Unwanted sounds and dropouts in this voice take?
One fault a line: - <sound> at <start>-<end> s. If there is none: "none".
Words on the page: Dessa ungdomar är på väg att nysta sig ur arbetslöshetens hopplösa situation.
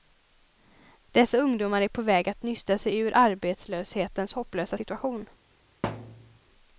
- thud at 5.8-6.4 s